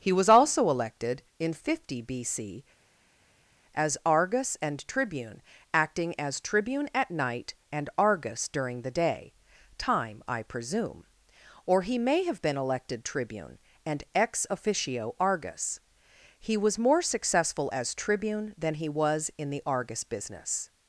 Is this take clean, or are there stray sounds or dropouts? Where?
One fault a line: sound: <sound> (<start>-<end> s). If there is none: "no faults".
no faults